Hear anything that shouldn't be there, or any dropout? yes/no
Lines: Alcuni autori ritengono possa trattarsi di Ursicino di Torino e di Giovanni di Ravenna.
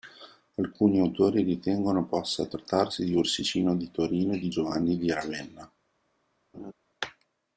yes